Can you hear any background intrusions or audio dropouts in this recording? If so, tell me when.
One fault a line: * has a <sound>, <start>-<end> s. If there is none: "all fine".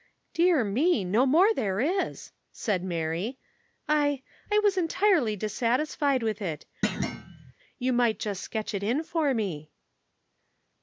* has a thud, 6.8-7.5 s